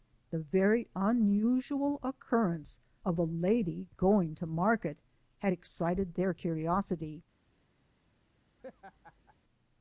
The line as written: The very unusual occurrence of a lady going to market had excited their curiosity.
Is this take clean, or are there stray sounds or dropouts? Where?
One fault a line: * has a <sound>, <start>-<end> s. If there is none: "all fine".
* has a laugh, 8.6-9.4 s